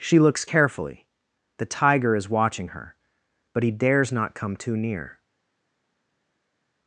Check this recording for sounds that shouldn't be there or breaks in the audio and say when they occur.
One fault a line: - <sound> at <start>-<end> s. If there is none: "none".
none